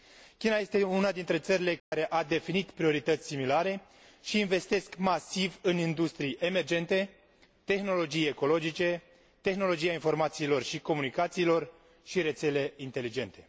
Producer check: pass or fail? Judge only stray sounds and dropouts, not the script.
fail